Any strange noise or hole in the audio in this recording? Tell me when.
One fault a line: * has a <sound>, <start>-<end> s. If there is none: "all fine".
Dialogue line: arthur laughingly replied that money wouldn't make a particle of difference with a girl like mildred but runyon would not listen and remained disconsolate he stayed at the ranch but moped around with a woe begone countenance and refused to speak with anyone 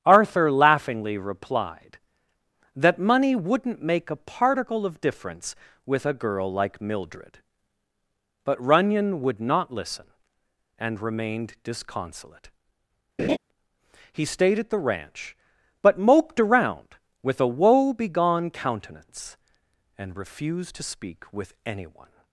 * has a laugh, 13.2-13.4 s